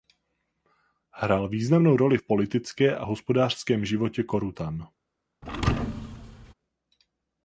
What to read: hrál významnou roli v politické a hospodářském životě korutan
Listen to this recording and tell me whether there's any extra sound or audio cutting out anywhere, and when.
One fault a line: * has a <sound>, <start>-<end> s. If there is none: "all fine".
* has a thud, 5.4-6.5 s